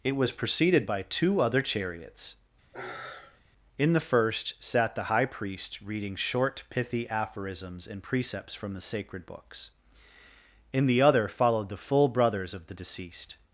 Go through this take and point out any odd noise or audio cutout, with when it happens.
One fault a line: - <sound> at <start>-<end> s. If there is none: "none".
- sigh at 2.7-3.4 s